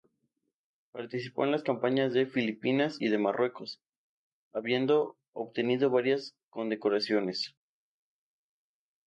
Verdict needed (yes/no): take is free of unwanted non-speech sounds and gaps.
yes